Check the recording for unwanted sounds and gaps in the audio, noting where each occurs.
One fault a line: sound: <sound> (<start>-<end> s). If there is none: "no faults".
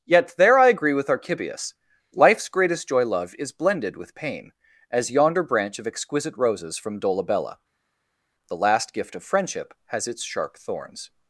no faults